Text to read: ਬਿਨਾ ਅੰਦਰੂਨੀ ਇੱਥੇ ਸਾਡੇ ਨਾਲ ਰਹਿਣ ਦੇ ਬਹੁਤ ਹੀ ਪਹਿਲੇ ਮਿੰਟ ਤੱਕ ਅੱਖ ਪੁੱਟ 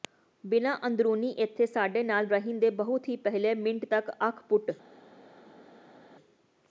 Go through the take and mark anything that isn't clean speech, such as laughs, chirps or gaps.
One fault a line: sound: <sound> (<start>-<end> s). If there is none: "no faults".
no faults